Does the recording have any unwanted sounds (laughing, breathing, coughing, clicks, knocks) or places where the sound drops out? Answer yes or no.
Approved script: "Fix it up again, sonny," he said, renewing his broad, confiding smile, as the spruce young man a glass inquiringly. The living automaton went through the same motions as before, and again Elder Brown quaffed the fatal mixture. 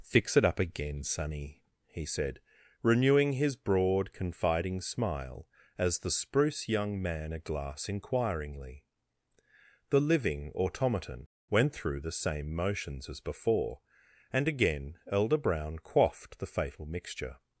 no